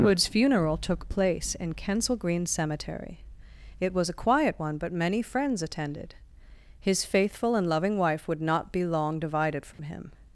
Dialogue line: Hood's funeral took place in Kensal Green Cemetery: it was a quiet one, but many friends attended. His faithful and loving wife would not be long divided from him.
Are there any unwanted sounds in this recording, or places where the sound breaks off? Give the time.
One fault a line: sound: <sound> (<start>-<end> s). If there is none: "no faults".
sound: dropout (9.7-9.8 s)